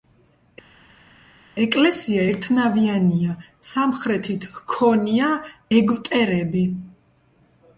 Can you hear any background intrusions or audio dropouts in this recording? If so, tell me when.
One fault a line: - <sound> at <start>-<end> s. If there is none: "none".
none